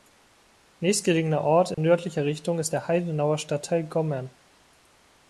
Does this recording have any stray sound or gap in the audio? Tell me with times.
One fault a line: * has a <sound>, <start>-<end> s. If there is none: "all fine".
* has a dropout, 1.7-1.8 s